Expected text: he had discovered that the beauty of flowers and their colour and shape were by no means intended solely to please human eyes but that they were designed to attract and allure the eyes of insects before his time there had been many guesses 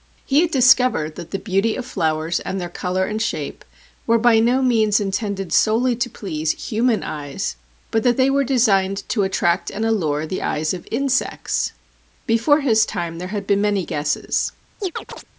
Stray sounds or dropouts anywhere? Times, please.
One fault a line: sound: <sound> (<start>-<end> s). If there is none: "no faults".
sound: chirp (14.8-15.2 s)